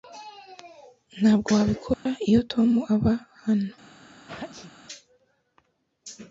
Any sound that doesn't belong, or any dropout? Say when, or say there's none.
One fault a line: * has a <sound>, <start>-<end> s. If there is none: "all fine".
* has a dropout, 1.9-2.1 s
* has a sneeze, 4.3-4.7 s